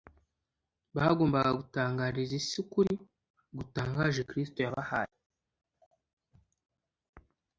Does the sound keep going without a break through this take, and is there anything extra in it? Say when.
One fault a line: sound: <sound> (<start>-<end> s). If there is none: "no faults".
no faults